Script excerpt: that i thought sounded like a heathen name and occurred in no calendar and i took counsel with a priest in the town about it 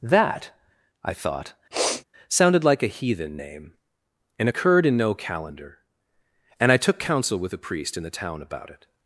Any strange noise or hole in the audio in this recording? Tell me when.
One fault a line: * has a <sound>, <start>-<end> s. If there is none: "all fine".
* has a sniff, 1.7-2.0 s